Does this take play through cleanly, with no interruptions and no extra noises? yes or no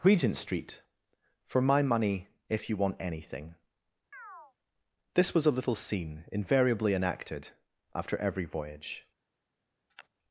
no